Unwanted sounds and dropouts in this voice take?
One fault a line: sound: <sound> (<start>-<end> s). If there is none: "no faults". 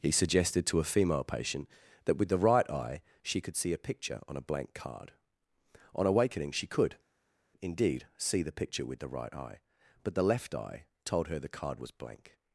no faults